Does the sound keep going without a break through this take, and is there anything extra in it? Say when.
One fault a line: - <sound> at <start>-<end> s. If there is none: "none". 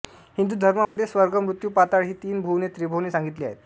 - dropout at 0.8-1.0 s